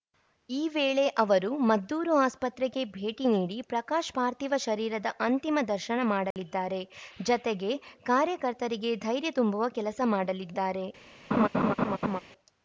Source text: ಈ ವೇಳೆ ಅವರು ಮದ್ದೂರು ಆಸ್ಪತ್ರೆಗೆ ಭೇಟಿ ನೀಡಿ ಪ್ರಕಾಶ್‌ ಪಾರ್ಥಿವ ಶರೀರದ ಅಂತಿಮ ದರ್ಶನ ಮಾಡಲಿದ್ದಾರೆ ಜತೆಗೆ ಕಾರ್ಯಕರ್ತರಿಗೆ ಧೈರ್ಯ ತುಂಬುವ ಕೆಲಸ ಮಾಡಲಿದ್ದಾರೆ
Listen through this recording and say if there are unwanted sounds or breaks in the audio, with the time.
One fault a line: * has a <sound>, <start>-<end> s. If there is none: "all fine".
* has a dropout, 6.3-6.4 s
* has a laugh, 11.3-12.2 s